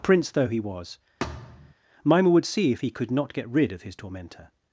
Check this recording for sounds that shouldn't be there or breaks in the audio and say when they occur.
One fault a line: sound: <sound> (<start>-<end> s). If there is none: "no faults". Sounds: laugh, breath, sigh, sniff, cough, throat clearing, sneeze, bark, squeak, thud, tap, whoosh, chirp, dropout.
sound: thud (1.2-1.7 s)